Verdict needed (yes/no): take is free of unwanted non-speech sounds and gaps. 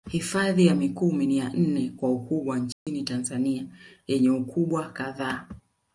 no